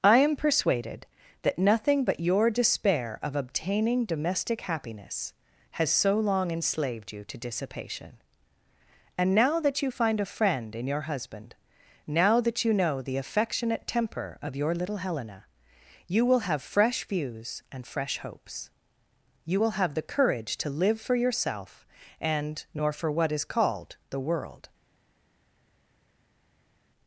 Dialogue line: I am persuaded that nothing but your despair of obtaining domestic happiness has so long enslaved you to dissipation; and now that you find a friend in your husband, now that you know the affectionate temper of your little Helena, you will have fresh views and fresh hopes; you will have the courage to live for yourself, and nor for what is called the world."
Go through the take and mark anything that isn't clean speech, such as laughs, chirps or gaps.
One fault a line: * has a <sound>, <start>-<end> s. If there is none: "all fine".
all fine